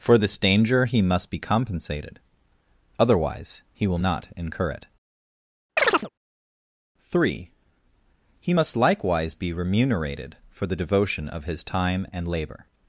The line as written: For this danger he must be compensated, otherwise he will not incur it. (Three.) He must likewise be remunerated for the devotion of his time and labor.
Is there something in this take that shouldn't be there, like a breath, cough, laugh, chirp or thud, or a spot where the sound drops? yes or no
yes